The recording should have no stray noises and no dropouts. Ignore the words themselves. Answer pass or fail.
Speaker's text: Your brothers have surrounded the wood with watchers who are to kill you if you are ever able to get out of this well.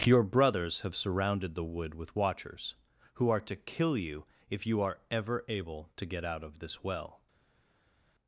pass